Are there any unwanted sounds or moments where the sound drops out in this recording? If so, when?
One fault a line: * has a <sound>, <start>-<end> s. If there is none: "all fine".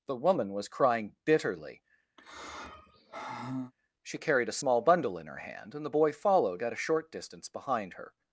* has a sigh, 2.2-3.7 s